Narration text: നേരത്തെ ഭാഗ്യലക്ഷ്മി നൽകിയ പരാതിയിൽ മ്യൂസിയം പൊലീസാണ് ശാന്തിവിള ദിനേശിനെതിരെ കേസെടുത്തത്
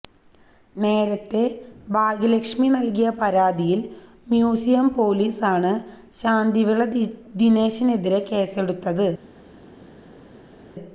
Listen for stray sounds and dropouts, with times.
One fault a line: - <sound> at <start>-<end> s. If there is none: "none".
none